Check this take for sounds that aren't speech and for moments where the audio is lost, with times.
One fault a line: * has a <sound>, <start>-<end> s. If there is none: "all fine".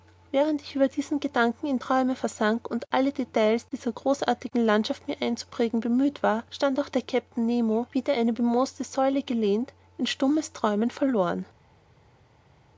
all fine